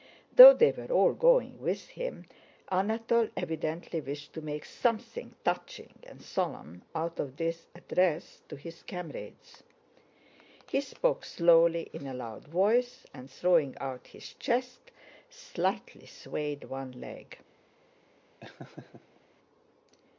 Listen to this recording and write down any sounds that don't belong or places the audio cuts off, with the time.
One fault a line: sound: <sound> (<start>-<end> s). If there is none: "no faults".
sound: laugh (18.4-19.2 s)